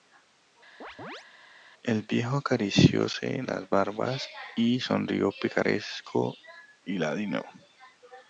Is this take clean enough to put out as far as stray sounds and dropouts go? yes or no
no